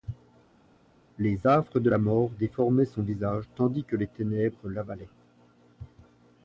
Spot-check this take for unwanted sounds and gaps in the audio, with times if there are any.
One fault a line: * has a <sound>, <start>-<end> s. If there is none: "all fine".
all fine